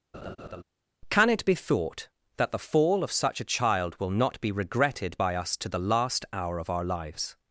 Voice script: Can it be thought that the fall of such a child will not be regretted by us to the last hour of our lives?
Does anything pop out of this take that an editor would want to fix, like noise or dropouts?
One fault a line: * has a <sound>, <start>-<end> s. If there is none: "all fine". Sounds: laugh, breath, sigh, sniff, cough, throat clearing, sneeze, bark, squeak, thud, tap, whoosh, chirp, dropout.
* has a laugh, 0.1-0.6 s